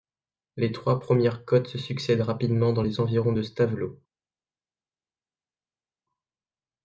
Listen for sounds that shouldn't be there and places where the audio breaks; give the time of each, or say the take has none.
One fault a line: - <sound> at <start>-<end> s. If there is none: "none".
none